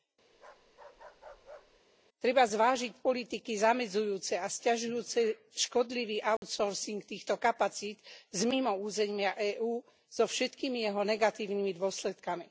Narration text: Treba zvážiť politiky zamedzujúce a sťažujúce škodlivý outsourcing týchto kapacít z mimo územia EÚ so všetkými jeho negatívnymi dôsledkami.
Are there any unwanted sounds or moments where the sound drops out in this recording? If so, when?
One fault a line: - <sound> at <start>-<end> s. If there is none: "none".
- bark at 0.3-1.8 s
- dropout at 6.4-6.4 s